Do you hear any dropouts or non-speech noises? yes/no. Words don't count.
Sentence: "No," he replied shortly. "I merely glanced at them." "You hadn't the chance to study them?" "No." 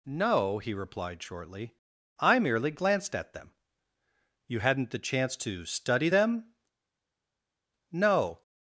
no